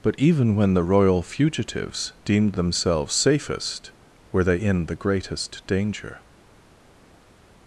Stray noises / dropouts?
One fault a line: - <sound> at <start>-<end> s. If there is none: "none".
none